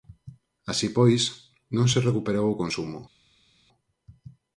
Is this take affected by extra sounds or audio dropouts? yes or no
no